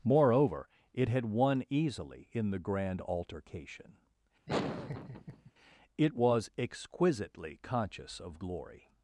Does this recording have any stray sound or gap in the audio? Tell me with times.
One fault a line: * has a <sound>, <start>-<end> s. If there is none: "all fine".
* has a laugh, 4.5-5.5 s